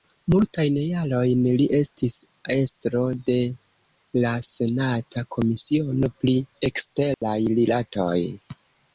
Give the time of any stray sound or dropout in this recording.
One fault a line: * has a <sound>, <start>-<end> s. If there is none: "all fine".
* has a dropout, 7.1-7.2 s